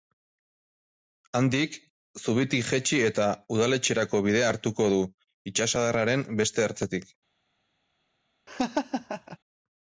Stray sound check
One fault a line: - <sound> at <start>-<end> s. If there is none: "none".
- laugh at 8.5-9.4 s